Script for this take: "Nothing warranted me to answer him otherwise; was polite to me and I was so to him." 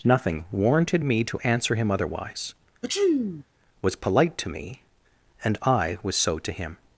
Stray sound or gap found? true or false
true